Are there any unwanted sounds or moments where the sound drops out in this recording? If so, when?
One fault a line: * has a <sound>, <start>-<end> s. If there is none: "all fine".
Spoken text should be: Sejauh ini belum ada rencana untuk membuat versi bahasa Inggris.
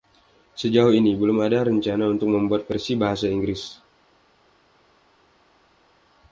all fine